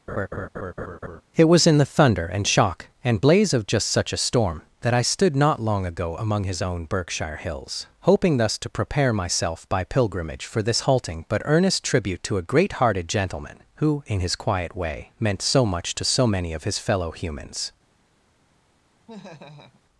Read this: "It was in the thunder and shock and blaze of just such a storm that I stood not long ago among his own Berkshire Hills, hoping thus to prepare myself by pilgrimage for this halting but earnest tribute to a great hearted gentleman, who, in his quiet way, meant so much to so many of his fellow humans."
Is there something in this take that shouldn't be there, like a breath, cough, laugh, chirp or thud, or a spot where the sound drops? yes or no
yes